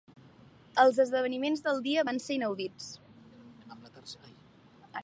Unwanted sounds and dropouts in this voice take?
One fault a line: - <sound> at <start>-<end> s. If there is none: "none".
none